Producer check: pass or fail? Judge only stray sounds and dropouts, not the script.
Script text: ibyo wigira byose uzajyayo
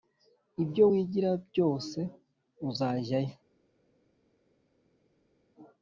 pass